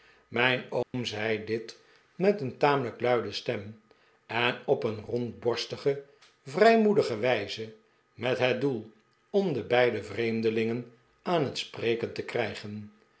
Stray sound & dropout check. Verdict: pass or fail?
fail